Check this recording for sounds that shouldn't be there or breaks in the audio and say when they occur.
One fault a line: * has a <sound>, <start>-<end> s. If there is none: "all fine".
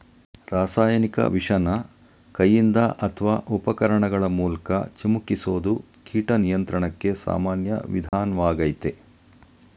* has a dropout, 8.1-8.1 s